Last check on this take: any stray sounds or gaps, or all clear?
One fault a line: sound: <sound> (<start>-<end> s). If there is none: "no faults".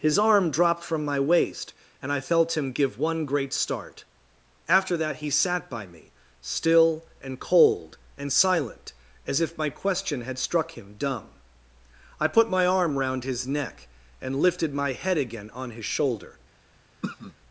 sound: throat clearing (17.0-17.3 s)